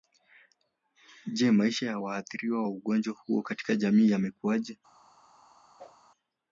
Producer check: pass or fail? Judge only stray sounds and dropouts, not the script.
fail